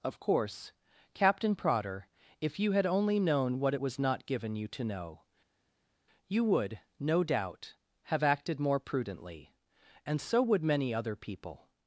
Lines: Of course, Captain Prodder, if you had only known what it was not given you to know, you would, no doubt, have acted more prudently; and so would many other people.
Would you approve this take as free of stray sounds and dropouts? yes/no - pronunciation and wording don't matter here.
yes